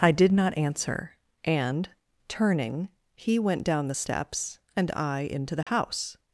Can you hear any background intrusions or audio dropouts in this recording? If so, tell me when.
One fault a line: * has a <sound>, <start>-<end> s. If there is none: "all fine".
* has a dropout, 5.6-5.7 s